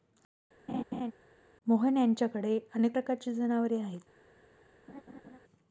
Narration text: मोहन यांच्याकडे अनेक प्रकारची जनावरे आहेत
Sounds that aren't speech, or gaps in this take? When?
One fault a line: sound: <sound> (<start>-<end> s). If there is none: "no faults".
sound: laugh (0.7-1.1 s)
sound: laugh (4.9-5.4 s)